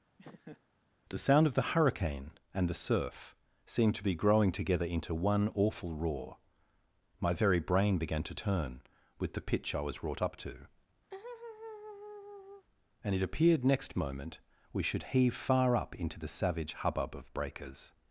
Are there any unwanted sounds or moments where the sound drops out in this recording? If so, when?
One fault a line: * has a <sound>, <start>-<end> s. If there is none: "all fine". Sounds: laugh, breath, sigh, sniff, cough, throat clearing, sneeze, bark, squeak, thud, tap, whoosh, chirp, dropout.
* has a laugh, 0.2-0.6 s
* has a laugh, 11.1-12.7 s